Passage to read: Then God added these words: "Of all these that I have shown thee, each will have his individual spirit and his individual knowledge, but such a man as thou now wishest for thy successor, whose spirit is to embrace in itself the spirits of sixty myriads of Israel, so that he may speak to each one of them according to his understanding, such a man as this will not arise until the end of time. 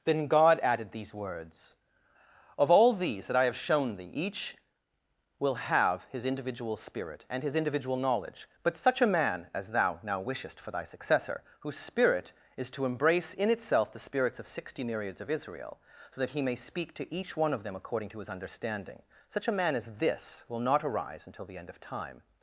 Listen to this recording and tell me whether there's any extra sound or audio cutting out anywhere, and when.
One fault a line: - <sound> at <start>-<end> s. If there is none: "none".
none